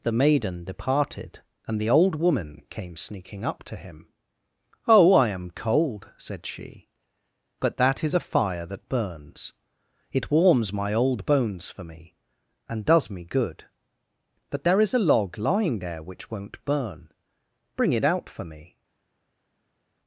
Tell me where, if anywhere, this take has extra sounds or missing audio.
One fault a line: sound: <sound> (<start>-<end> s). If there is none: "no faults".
no faults